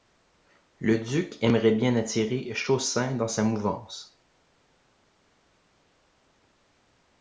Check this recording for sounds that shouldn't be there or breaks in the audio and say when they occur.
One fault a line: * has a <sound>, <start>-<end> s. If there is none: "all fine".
all fine